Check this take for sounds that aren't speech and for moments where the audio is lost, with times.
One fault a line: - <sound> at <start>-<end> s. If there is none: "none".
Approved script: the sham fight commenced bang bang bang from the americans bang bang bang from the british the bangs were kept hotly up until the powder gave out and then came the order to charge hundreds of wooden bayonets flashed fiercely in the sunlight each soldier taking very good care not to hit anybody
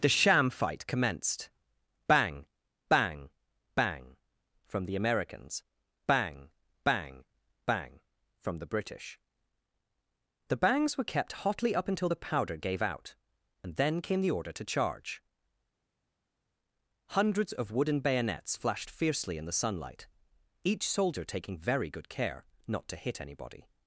none